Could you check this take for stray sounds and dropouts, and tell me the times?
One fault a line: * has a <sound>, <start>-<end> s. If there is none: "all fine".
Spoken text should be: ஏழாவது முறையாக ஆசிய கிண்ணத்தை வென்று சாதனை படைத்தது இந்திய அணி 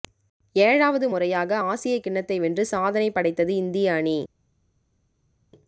all fine